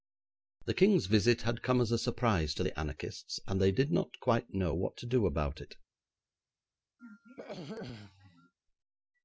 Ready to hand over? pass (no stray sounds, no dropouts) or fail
fail